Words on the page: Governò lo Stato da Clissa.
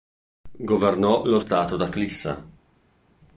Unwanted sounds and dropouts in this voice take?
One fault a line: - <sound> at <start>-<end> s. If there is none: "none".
none